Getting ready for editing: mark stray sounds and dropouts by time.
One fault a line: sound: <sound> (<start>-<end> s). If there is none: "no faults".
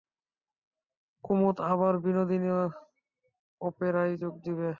no faults